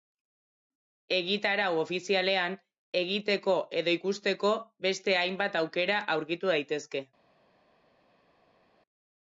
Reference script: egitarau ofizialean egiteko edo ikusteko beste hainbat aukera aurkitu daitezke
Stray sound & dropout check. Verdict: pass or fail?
pass